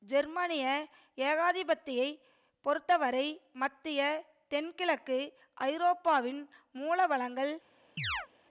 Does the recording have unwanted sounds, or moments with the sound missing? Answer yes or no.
yes